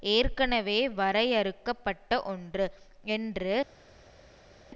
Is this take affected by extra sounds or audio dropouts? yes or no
no